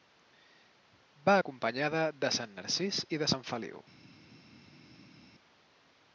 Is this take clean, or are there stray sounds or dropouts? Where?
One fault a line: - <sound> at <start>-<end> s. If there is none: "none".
none